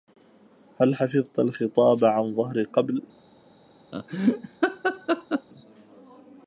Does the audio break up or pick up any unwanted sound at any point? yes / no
yes